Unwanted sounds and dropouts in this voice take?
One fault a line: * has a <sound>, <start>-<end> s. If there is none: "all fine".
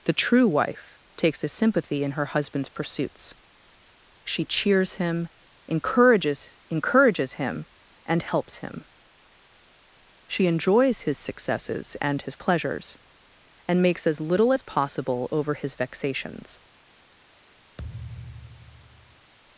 * has a thud, 17.8-19.3 s